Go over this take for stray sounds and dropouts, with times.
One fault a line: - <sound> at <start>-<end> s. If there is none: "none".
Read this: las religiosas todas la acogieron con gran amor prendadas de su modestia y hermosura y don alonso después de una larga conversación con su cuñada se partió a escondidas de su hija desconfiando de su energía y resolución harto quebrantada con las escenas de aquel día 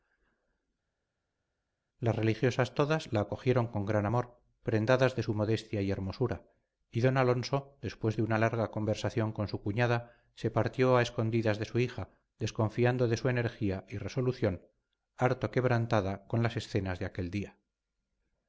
none